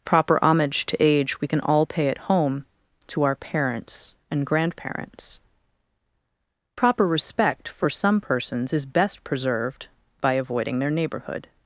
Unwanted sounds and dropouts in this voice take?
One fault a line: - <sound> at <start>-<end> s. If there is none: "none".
none